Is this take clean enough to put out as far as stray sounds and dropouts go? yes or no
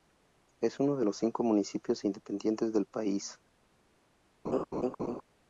no